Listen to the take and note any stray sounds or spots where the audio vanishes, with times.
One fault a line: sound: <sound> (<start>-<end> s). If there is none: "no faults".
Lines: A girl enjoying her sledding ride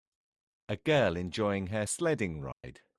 sound: dropout (2.5-2.6 s)